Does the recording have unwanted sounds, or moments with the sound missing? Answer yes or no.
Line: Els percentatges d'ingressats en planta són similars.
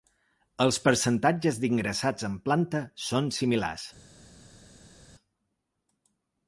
no